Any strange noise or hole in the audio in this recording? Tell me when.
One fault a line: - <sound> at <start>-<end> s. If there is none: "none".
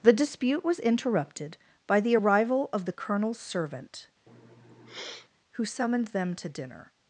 - sniff at 4.3-5.3 s